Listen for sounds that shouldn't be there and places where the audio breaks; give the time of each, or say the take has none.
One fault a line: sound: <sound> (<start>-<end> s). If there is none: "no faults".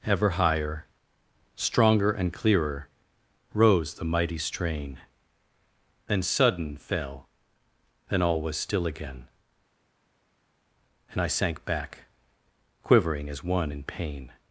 no faults